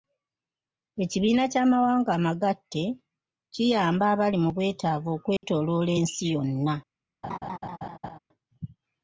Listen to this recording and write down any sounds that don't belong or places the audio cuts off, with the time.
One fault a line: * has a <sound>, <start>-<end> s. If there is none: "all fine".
* has a dropout, 5.4-5.4 s
* has a laugh, 7.2-8.2 s